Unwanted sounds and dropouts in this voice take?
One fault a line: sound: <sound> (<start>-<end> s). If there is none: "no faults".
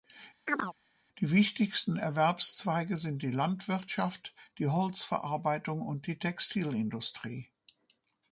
sound: chirp (0.5-0.7 s)